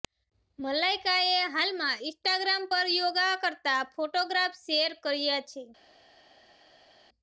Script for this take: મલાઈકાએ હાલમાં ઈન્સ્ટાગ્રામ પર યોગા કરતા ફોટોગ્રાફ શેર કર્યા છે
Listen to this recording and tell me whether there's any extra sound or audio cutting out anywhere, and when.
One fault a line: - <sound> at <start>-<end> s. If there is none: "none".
none